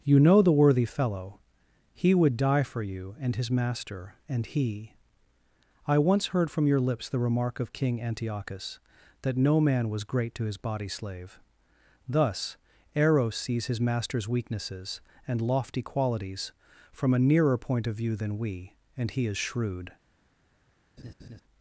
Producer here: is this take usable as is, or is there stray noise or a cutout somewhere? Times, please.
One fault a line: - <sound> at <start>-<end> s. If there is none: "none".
- laugh at 21.0-21.4 s